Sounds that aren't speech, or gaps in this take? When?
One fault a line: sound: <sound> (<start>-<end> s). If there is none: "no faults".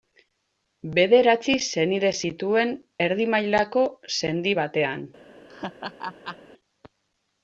sound: laugh (5.5-6.4 s)